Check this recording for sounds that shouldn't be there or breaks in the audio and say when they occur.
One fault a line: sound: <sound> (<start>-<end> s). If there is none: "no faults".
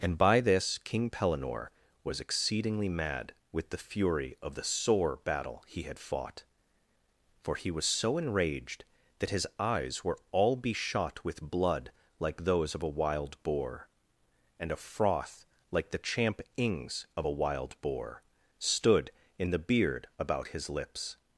no faults